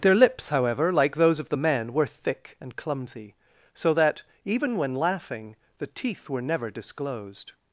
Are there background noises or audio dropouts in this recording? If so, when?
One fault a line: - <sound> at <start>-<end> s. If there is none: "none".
none